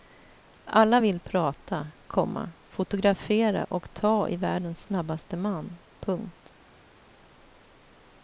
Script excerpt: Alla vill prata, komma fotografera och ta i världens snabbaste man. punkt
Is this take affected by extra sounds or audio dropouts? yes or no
no